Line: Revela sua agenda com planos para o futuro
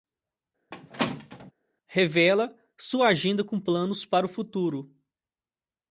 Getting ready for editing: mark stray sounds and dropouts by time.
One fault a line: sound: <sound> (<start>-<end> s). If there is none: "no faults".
sound: squeak (0.7-1.5 s)